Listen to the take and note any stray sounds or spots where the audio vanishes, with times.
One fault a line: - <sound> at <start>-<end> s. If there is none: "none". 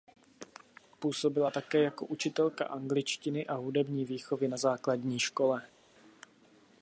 none